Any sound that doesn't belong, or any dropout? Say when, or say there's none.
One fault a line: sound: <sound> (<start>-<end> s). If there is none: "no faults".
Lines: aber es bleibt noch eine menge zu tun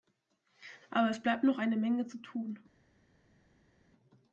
no faults